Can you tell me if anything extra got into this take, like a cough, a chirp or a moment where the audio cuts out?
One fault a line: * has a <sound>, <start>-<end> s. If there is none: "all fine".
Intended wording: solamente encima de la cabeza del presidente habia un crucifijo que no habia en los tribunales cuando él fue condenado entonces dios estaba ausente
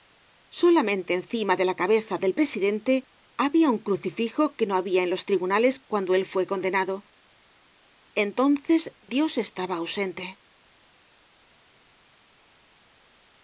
all fine